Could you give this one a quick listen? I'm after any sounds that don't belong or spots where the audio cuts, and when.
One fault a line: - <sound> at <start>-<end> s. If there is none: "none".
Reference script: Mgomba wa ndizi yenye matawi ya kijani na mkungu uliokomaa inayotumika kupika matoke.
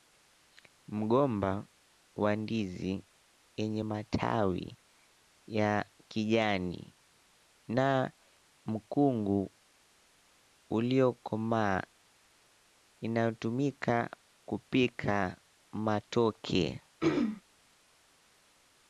- throat clearing at 17.0-17.4 s